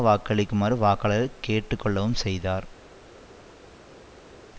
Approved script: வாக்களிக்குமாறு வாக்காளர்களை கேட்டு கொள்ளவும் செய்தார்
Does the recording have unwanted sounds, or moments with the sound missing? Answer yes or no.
no